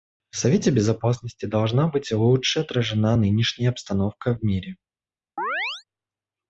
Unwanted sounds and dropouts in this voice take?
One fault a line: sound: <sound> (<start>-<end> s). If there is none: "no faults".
sound: chirp (5.4-5.8 s)